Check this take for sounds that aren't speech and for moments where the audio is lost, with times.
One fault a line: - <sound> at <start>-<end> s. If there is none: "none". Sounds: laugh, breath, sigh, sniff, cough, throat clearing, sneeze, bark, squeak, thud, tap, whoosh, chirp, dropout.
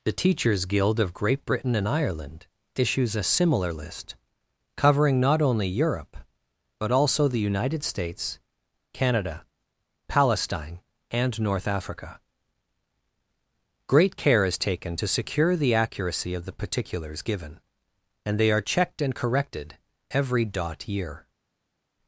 none